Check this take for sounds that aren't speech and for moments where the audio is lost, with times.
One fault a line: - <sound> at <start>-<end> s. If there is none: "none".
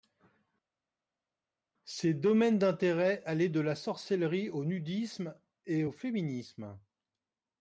none